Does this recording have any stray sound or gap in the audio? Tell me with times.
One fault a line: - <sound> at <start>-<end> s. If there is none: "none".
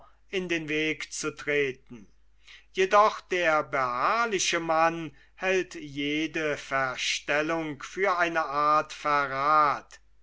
none